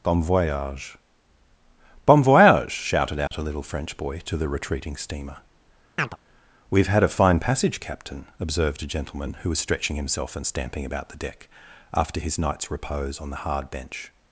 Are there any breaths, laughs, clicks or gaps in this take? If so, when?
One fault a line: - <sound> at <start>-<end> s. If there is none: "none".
- dropout at 3.3-3.3 s
- chirp at 6.0-6.2 s